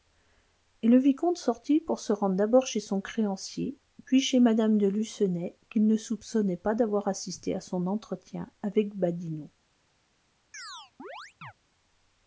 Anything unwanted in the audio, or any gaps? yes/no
yes